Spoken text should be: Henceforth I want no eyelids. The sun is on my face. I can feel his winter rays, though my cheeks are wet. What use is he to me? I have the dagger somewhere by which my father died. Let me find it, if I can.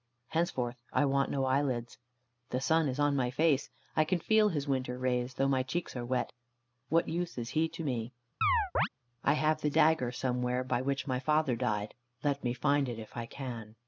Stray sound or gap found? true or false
true